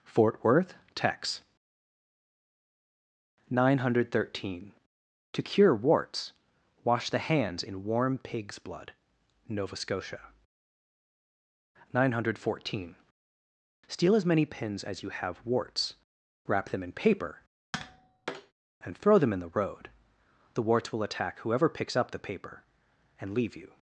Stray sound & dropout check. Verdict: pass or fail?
fail